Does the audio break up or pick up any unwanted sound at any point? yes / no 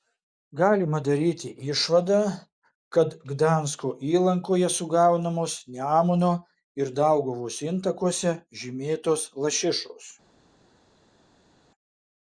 no